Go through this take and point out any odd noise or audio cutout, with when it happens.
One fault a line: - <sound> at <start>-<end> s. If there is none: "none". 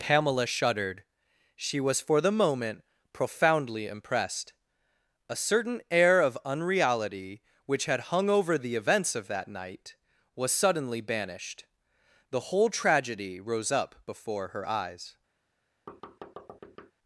- thud at 15.9-16.9 s